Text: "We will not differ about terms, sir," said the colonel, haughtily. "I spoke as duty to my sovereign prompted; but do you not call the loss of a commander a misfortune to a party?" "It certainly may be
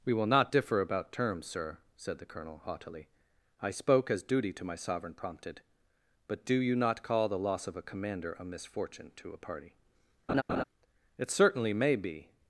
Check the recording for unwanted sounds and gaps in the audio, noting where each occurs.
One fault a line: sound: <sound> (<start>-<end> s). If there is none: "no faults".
sound: laugh (10.3-10.6 s)